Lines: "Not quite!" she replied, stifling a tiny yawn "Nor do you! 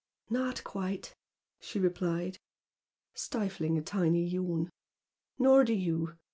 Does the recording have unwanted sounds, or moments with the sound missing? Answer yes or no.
no